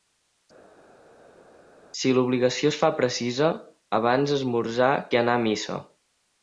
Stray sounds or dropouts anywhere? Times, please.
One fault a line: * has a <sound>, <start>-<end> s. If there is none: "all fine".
all fine